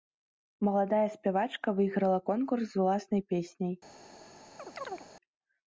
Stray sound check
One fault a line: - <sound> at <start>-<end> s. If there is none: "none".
- chirp at 4.6-5.1 s